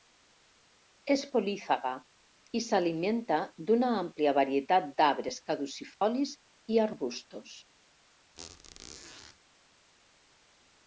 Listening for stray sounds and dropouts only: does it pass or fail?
fail